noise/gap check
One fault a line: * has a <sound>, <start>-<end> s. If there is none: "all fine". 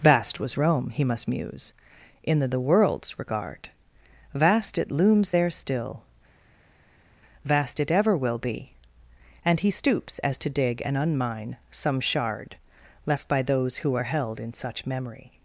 all fine